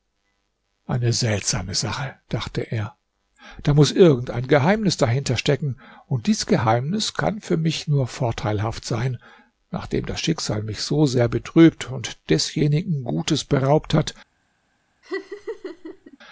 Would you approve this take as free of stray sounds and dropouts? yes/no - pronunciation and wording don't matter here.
no